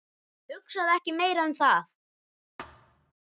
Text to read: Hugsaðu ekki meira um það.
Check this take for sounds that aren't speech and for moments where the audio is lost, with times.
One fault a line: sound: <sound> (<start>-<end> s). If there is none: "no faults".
sound: thud (2.6-3.1 s)